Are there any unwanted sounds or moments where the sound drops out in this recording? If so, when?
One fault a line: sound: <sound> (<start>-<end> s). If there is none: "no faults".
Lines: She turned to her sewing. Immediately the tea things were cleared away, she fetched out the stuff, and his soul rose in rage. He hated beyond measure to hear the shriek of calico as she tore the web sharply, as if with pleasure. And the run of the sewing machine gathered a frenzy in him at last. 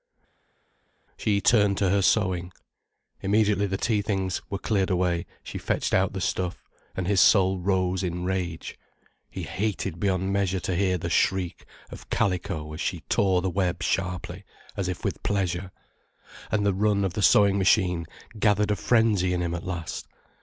no faults